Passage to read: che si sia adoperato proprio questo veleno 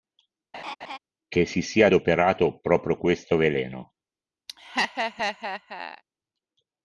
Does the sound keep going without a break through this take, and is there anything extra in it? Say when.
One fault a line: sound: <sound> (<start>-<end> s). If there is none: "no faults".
sound: laugh (0.5-1.0 s)
sound: laugh (4.5-6.0 s)